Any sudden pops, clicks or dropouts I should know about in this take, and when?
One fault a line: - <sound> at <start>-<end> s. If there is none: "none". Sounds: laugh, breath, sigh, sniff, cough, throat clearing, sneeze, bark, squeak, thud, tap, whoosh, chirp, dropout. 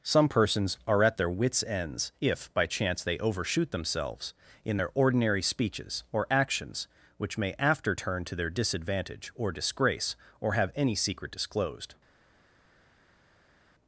none